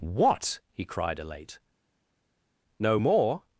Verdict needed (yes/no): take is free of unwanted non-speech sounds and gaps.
yes